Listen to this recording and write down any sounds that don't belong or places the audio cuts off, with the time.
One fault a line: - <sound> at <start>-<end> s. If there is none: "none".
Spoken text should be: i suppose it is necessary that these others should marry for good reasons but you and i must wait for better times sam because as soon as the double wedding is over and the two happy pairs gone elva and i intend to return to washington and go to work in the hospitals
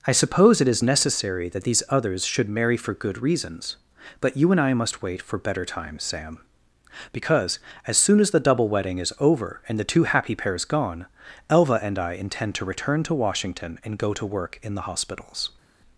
none